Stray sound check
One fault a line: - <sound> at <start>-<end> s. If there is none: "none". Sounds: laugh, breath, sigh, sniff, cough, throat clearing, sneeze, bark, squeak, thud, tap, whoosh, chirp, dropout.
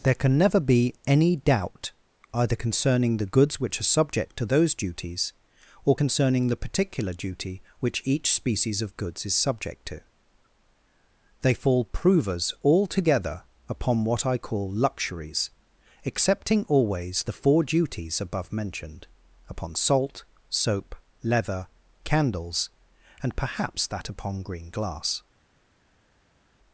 none